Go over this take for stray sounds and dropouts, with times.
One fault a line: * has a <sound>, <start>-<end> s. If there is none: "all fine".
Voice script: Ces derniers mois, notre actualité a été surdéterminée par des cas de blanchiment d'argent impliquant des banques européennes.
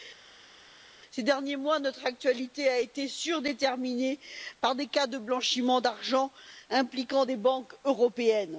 all fine